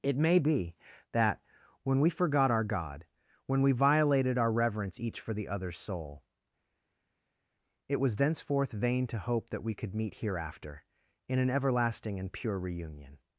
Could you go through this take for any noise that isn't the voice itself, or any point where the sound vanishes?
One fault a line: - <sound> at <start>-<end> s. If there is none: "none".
none